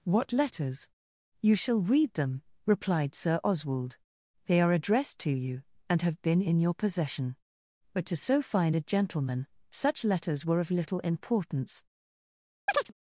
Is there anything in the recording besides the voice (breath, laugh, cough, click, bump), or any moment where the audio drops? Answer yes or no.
yes